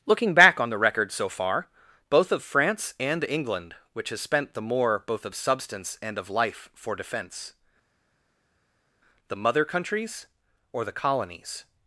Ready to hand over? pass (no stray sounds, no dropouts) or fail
pass